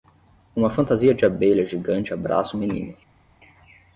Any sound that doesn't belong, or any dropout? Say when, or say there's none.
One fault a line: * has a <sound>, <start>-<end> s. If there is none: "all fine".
all fine